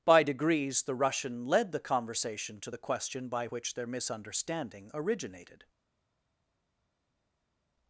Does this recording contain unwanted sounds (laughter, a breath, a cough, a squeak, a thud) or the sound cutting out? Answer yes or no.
no